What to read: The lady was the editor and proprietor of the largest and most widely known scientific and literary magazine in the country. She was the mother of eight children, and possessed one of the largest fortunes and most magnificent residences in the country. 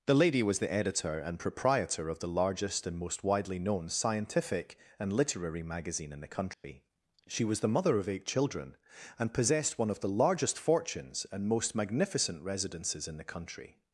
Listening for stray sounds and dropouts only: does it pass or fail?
fail